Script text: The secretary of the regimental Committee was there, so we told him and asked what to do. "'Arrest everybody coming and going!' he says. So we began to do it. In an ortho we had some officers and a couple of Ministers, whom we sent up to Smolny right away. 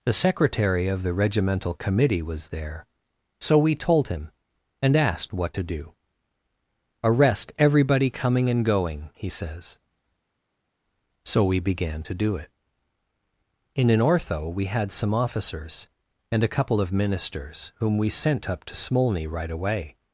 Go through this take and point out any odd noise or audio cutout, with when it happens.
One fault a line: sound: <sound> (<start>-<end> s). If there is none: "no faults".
no faults